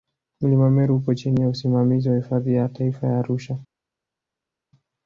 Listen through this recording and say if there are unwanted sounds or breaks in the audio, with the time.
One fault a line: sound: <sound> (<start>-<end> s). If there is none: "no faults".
no faults